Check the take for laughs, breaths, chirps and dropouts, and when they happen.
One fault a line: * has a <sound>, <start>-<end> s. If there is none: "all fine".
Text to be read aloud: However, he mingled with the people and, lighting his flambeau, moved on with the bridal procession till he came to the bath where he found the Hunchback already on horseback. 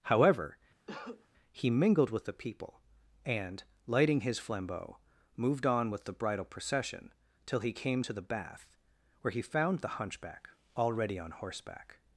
* has a cough, 0.9-1.3 s